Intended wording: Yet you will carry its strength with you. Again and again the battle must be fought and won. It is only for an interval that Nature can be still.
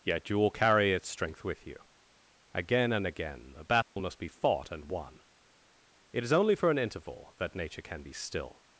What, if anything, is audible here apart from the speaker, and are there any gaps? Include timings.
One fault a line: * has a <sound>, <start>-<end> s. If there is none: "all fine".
* has a dropout, 3.8-4.0 s